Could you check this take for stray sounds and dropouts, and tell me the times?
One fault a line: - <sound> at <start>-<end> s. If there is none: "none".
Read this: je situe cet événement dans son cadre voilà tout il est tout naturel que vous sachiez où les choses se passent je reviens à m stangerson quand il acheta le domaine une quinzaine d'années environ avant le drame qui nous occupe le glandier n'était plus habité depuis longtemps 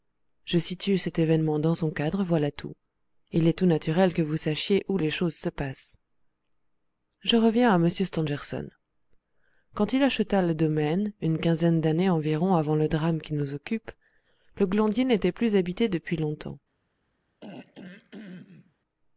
- throat clearing at 17.4-18.7 s